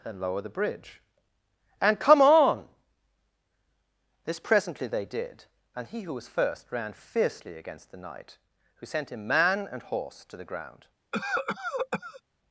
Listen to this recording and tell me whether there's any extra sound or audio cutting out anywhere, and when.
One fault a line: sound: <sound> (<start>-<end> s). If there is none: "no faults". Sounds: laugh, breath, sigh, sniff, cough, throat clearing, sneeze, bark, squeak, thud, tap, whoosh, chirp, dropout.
sound: cough (11.1-12.2 s)